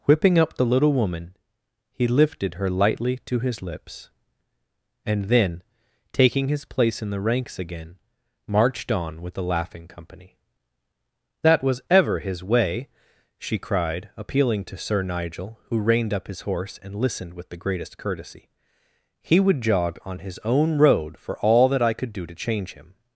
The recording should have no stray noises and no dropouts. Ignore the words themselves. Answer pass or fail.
pass